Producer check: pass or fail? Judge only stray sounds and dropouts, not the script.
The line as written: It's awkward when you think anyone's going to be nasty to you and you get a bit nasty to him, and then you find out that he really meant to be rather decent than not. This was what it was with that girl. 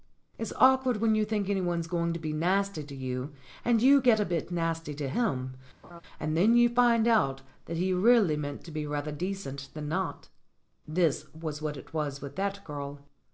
fail